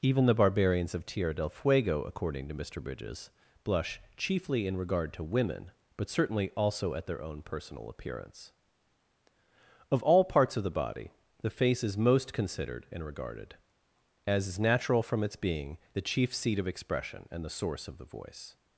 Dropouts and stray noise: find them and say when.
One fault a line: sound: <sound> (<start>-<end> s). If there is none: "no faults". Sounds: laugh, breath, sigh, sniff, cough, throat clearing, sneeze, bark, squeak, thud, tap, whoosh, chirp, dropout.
no faults